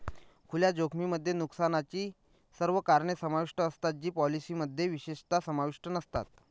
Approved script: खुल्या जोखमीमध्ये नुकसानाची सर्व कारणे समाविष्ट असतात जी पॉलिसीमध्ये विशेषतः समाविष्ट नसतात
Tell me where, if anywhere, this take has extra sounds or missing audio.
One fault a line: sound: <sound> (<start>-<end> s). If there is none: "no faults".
no faults